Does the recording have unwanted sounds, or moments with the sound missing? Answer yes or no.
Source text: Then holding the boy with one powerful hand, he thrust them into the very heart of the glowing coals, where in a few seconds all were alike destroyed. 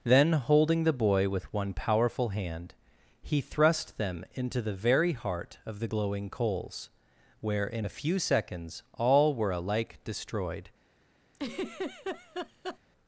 yes